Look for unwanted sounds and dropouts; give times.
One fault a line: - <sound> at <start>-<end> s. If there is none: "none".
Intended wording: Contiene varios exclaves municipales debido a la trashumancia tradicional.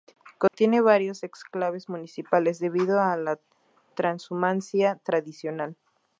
- dropout at 0.5-0.5 s